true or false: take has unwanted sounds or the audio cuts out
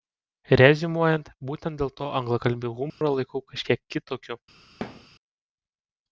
true